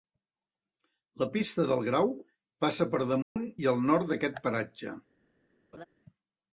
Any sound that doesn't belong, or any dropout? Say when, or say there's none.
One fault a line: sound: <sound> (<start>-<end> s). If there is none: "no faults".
sound: dropout (3.2-3.4 s)
sound: laugh (5.7-5.8 s)